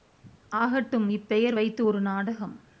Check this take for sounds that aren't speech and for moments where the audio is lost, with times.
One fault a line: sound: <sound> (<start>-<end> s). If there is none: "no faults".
no faults